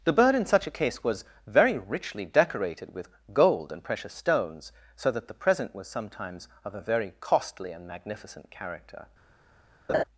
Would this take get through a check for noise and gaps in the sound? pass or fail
fail